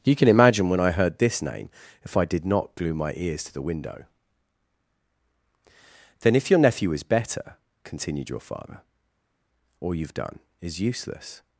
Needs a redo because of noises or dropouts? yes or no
no